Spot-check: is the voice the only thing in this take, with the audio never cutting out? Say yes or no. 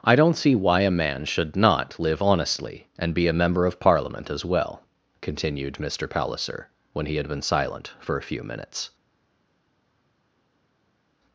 yes